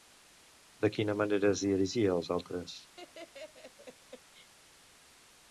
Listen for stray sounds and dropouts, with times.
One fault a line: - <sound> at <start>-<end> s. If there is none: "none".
- laugh at 3.0-4.5 s